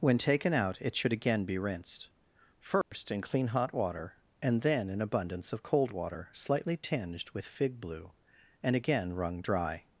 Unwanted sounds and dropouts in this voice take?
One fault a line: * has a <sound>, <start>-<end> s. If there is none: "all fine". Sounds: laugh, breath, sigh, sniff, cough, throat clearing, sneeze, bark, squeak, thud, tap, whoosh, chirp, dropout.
* has a dropout, 2.8-2.9 s